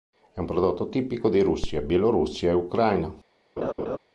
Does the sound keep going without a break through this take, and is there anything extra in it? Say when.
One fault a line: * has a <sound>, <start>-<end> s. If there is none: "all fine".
* has a laugh, 3.6-4.0 s